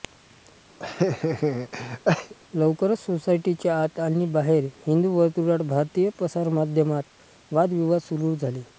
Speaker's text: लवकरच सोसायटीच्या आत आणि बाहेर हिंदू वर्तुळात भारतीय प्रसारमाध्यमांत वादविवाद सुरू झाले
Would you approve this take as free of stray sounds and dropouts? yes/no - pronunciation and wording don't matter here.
no